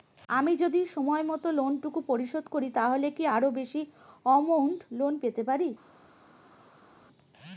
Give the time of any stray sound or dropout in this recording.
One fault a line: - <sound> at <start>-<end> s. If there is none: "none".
none